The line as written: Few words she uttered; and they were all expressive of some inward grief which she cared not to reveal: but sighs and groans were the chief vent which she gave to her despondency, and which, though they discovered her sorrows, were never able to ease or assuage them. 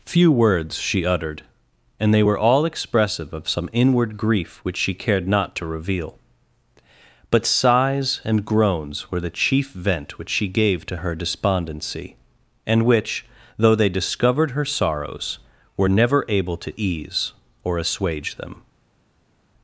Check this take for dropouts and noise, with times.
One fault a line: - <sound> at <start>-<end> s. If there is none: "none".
none